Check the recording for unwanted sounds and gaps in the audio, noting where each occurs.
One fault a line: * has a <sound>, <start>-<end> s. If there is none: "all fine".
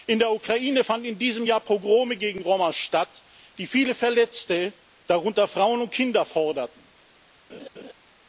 * has a laugh, 7.5-7.9 s